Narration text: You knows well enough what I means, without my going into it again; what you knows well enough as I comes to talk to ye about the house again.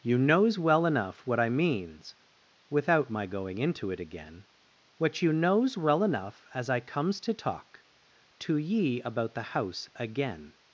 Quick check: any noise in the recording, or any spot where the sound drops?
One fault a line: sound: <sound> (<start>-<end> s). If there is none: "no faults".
no faults